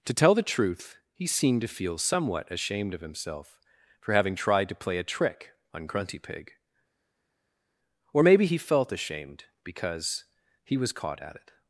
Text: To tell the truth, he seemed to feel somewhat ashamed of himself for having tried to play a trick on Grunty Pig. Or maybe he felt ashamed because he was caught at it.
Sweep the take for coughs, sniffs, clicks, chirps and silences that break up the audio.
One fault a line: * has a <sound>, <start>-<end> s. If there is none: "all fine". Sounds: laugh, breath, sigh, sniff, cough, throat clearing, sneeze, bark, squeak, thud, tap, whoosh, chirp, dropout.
all fine